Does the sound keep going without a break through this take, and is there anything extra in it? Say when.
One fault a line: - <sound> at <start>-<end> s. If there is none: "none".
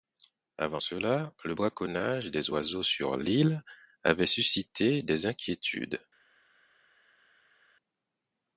none